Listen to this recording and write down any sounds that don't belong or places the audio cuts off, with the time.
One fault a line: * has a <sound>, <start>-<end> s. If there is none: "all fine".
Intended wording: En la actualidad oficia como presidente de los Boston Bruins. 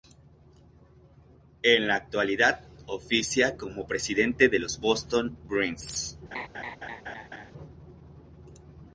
* has a laugh, 6.3-7.5 s